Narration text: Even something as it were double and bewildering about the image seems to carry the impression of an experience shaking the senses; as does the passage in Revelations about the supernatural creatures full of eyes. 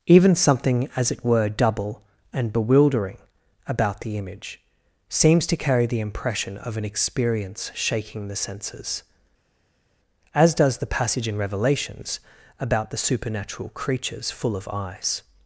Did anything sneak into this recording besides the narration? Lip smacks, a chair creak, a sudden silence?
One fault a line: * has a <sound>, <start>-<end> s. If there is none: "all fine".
all fine